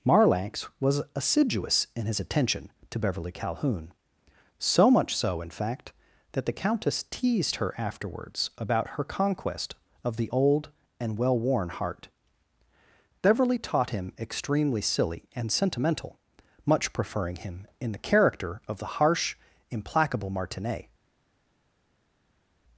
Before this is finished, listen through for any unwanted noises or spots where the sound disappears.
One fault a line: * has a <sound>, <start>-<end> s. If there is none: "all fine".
all fine